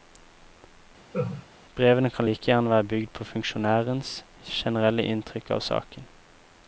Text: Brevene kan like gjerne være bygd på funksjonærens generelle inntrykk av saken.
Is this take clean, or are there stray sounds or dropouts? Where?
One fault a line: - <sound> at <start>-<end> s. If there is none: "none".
- laugh at 1.1-1.5 s